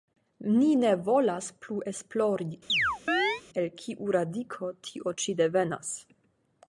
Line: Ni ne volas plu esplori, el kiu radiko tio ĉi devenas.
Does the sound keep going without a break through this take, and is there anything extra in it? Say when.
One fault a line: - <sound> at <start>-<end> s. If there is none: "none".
- chirp at 2.7-3.4 s